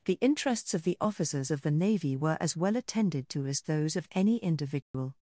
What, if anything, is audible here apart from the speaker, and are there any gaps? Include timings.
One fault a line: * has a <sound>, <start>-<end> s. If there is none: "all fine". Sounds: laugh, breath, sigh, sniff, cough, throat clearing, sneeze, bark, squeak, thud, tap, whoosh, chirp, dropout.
* has a dropout, 4.8-4.9 s